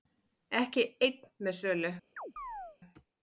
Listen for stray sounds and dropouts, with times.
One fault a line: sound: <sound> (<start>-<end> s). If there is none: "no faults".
sound: chirp (2.2-2.8 s)